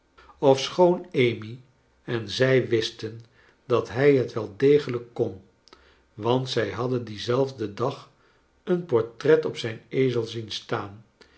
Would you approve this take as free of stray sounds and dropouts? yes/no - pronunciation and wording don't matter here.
yes